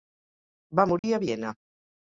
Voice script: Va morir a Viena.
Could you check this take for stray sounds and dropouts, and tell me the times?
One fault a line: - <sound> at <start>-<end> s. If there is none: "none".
- dropout at 1.0-1.0 s